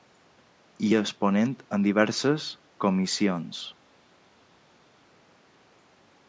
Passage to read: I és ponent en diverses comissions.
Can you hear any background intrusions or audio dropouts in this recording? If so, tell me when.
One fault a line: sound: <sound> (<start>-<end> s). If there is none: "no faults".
no faults